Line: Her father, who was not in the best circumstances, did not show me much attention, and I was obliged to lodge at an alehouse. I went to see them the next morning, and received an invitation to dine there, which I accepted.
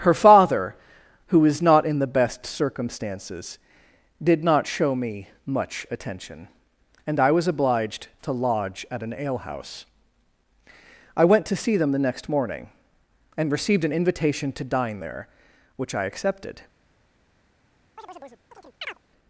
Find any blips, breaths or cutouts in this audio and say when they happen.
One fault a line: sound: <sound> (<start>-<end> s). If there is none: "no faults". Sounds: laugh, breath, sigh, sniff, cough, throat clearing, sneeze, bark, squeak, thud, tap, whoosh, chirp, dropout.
sound: chirp (18.0-19.0 s)